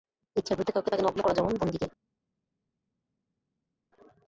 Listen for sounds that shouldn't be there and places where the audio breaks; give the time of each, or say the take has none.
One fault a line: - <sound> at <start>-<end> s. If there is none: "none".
none